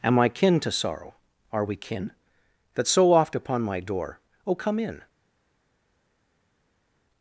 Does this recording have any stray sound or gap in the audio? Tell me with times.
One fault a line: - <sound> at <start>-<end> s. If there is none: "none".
none